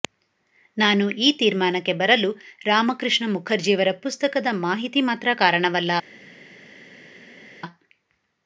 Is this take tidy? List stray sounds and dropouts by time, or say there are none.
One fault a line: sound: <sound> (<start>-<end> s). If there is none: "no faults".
no faults